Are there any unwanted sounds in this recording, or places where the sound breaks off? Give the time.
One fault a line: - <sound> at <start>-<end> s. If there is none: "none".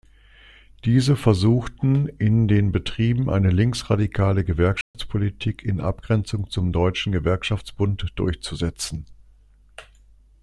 - dropout at 4.8-4.9 s